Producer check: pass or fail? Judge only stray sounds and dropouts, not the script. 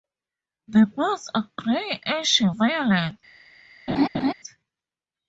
fail